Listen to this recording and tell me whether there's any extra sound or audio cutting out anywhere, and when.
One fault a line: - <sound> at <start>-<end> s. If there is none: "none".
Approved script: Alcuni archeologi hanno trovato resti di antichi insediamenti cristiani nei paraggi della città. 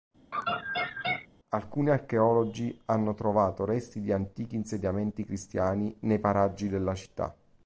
- laugh at 0.3-1.3 s